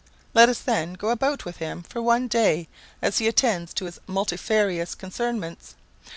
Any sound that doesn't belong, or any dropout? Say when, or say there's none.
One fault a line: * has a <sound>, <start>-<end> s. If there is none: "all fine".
all fine